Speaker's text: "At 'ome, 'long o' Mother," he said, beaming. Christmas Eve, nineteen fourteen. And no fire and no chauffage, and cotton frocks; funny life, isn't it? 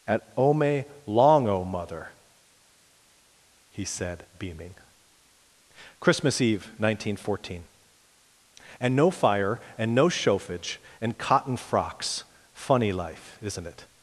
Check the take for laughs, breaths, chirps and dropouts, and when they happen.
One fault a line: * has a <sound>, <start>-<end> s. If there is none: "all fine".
all fine